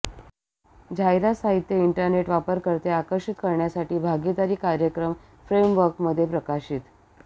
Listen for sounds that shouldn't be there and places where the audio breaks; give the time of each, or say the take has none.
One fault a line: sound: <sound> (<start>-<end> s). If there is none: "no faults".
no faults